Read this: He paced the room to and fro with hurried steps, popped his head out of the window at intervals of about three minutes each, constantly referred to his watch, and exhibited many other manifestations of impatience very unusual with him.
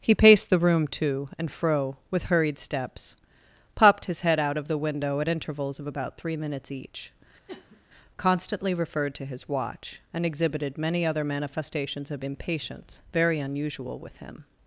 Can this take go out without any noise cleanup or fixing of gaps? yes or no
no